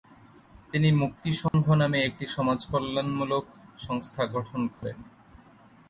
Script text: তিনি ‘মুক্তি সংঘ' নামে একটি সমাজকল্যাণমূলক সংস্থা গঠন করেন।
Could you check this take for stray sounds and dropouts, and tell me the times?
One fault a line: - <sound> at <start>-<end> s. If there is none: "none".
- dropout at 1.5-1.5 s
- dropout at 4.7-4.8 s